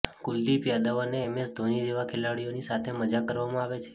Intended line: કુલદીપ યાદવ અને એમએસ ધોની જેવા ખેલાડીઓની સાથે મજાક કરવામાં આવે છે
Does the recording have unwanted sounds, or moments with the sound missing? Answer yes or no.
no